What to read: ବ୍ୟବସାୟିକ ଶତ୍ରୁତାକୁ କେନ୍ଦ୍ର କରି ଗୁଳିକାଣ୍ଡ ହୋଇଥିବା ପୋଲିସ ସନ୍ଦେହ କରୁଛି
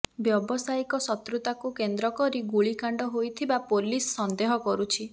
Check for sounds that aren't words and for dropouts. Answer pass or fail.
pass